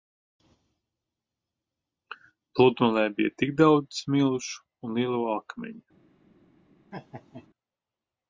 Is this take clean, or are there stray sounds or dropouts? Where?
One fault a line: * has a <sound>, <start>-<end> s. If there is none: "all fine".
* has a laugh, 6.9-7.5 s